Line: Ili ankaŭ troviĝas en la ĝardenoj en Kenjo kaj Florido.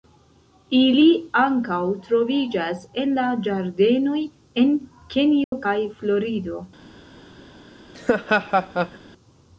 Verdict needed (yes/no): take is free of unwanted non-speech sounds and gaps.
no